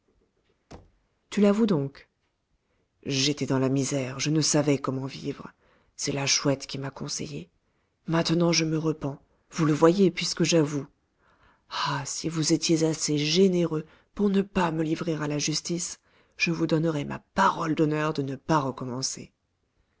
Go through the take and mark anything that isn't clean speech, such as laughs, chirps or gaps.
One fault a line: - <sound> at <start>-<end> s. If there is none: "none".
- thud at 0.7-1.1 s